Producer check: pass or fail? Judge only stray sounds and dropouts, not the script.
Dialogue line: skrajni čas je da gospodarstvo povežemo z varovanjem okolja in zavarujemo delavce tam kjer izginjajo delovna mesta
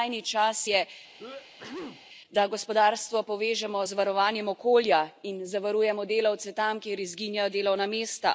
fail